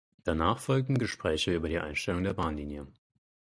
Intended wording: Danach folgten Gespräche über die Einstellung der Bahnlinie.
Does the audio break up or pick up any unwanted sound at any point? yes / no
no